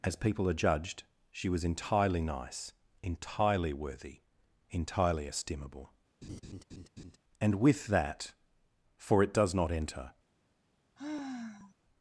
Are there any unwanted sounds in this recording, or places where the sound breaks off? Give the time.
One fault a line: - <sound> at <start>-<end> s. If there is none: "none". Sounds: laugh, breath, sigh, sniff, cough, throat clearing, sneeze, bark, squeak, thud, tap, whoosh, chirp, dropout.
- laugh at 6.2-7.2 s
- sigh at 11.0-11.7 s